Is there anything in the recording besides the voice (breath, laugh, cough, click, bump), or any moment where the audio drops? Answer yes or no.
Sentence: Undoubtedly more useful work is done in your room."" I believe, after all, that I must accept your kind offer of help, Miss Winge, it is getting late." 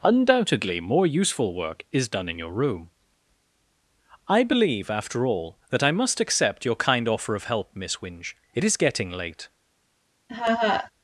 yes